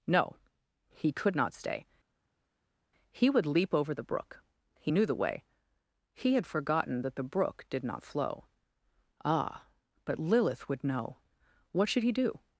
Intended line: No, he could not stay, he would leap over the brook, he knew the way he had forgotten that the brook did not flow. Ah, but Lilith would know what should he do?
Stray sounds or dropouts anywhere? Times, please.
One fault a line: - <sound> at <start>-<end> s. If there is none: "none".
none